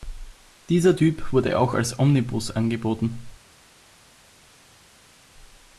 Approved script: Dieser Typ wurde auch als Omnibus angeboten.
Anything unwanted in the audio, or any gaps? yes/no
no